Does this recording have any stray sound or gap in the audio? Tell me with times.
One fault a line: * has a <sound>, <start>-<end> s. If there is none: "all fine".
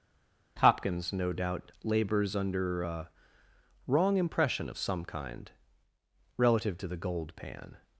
all fine